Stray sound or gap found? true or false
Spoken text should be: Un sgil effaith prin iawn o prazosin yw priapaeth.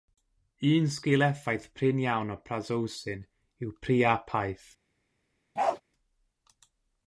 true